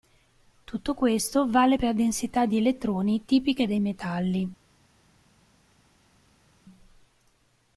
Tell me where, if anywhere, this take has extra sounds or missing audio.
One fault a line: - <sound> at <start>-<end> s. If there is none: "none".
none